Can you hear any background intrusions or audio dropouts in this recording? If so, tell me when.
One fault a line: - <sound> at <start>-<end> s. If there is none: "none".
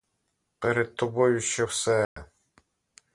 - dropout at 2.0-2.2 s